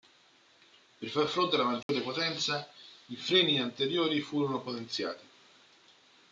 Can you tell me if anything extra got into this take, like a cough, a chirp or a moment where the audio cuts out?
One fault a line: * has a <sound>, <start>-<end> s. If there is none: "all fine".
* has a dropout, 1.8-1.9 s